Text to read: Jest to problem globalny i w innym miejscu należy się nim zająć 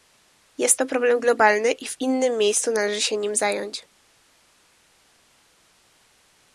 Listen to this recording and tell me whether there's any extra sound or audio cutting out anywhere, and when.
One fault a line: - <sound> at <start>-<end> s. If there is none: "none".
none